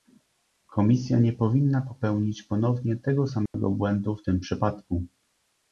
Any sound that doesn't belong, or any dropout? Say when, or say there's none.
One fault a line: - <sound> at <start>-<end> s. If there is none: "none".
- dropout at 3.5-3.5 s